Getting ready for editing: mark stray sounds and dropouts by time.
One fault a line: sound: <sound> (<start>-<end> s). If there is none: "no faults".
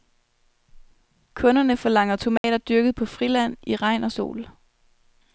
sound: dropout (2.4-2.4 s)